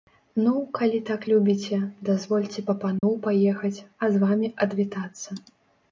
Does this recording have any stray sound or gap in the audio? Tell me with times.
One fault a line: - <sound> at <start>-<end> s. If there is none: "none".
- dropout at 3.0-3.0 s